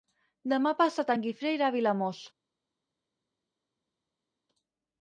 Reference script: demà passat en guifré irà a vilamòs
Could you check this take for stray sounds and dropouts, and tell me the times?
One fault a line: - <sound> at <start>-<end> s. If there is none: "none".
none